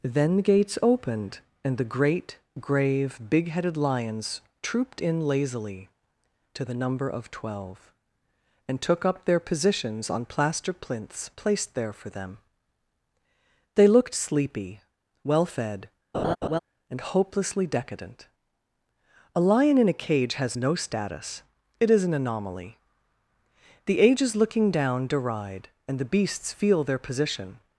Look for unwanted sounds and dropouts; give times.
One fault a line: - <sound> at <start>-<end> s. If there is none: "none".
- laugh at 16.1-16.6 s